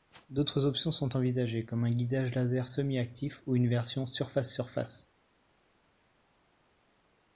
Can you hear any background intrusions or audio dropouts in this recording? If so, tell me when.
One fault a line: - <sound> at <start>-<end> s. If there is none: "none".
none